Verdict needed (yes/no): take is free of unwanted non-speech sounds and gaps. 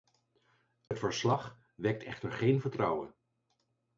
no